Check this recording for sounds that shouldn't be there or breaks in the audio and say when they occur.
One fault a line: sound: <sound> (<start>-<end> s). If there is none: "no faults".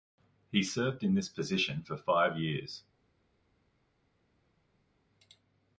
no faults